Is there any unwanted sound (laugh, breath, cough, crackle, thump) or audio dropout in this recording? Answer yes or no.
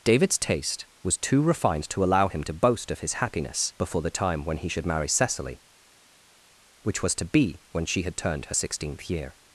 no